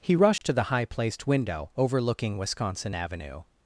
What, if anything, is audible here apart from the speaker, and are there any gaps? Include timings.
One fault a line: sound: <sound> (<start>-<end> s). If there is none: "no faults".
sound: dropout (0.4-0.4 s)